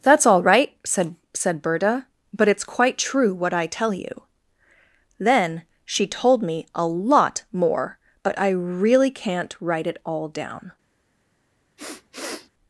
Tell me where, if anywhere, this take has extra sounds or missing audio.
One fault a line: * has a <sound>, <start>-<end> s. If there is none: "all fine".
* has a sniff, 11.8-12.5 s